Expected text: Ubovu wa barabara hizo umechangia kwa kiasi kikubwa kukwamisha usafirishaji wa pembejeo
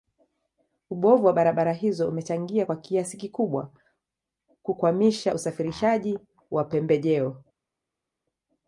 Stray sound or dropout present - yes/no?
no